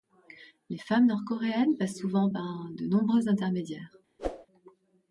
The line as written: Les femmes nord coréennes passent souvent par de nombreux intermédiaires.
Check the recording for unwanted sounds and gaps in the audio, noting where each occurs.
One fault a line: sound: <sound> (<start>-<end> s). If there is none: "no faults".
sound: whoosh (4.2-4.5 s)